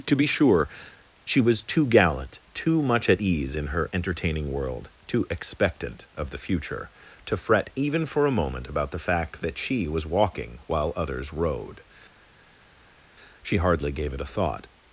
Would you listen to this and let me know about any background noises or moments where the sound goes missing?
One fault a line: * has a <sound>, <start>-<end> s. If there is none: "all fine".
all fine